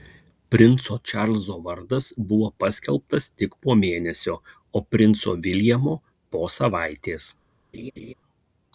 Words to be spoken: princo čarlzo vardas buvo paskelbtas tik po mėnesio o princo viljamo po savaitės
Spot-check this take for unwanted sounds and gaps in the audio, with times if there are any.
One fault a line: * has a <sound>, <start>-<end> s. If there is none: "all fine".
* has a laugh, 7.7-8.1 s